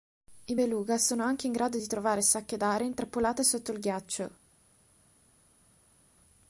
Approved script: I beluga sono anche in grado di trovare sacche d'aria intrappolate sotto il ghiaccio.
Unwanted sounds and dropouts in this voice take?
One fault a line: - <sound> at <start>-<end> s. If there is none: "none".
none